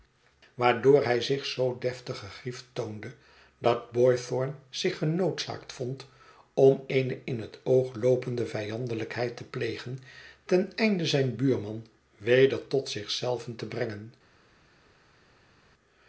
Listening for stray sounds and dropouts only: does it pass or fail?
pass